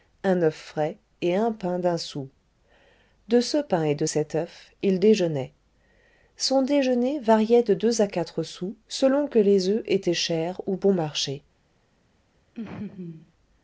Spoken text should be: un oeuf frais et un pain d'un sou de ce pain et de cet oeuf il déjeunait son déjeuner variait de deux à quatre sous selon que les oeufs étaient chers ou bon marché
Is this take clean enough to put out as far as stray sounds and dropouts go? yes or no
no